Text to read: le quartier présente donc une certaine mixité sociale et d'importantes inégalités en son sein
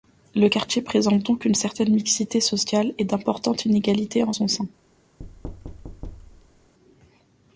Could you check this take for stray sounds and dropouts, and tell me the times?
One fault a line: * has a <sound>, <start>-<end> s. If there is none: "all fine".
* has a thud, 5.2-6.7 s